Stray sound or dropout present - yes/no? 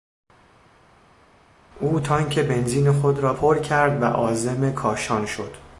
no